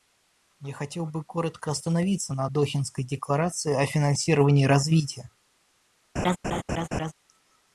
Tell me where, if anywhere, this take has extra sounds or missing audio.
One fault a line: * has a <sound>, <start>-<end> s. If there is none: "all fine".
* has a laugh, 6.2-7.1 s